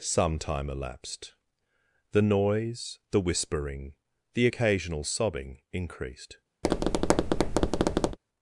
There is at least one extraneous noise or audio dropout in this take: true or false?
true